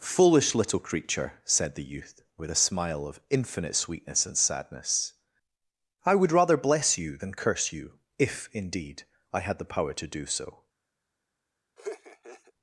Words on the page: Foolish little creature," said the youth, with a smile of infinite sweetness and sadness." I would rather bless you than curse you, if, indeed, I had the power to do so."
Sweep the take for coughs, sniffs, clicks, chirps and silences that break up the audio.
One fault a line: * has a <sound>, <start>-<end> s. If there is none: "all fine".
* has a laugh, 11.8-12.5 s